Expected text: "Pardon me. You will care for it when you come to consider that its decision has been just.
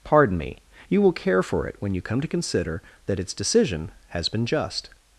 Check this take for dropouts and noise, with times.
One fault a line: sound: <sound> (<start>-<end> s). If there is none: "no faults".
no faults